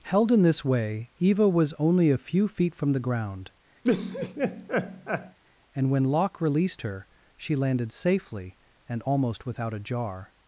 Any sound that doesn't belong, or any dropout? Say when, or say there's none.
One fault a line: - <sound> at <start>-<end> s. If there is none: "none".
- laugh at 3.8-5.4 s